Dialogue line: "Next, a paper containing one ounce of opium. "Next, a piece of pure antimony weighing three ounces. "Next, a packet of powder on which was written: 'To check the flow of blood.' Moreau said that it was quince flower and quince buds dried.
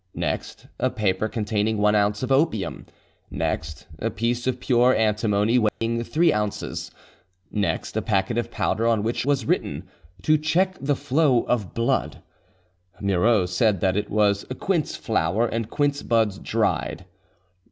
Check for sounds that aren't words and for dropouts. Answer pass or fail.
fail